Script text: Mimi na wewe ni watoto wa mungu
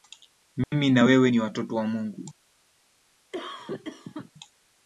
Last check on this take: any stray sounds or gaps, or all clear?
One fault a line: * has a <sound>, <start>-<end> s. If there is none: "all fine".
* has a dropout, 0.6-0.7 s
* has a cough, 3.3-4.3 s